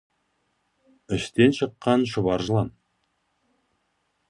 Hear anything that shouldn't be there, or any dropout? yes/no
no